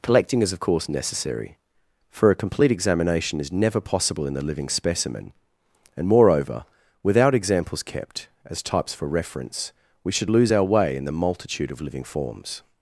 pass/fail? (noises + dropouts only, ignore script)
pass